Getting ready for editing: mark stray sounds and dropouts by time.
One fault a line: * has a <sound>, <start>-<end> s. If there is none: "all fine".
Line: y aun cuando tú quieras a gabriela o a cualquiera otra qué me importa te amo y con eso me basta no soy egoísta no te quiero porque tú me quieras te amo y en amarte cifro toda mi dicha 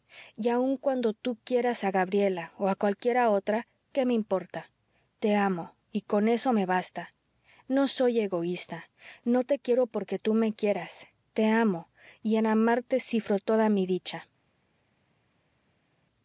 all fine